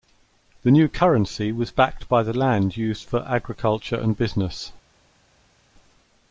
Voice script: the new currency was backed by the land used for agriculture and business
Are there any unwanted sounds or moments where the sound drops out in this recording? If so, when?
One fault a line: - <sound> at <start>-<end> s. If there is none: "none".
none